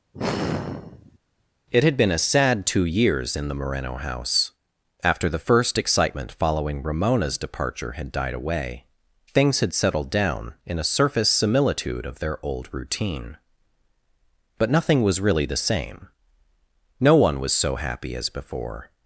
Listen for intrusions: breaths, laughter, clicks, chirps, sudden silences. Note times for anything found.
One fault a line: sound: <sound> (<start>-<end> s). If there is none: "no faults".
sound: sigh (0.1-1.2 s)